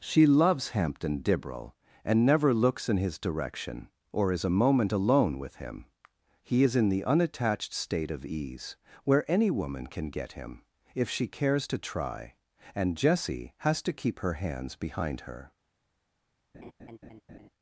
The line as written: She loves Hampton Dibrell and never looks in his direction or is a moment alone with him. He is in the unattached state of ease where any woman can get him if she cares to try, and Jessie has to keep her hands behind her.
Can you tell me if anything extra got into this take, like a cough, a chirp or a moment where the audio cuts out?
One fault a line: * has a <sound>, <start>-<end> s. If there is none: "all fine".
* has a laugh, 16.5-17.5 s